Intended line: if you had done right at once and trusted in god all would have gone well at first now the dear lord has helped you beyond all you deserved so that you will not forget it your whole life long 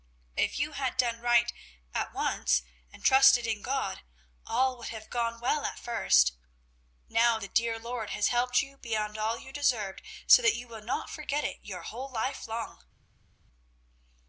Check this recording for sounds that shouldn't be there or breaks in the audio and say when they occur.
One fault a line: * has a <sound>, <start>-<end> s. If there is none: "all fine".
all fine